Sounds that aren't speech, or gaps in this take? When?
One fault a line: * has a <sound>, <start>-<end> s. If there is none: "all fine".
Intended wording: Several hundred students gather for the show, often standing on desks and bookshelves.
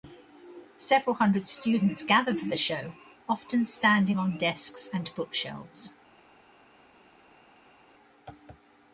all fine